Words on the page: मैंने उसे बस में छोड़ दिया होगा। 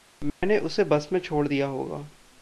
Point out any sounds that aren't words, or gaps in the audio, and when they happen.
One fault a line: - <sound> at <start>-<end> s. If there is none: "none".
- dropout at 0.3-0.4 s